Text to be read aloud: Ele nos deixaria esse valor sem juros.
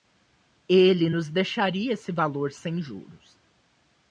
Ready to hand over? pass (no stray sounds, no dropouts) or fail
pass